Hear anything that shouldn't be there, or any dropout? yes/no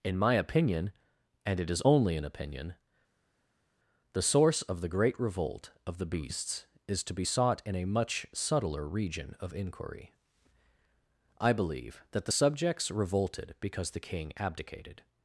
no